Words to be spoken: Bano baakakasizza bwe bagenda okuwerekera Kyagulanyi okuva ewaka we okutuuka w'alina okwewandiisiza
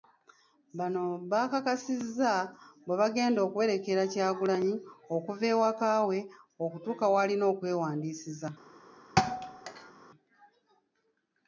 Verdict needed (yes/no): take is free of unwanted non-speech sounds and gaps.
no